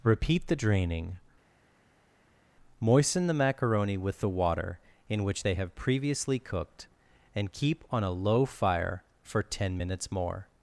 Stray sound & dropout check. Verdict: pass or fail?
pass